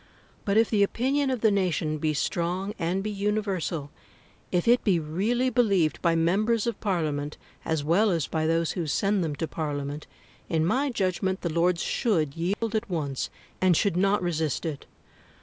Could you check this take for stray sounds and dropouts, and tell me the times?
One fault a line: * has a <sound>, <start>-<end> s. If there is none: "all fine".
* has a dropout, 12.5-12.6 s